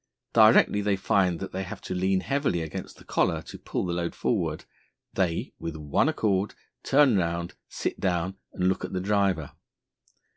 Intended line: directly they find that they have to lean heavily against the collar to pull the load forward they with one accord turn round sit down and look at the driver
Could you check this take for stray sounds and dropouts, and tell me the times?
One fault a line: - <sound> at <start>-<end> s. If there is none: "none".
none